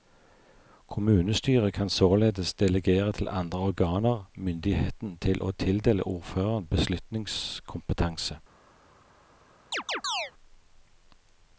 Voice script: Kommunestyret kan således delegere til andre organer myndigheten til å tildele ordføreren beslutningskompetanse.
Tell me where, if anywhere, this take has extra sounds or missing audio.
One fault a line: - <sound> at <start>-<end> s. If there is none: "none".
- chirp at 9.7-10.3 s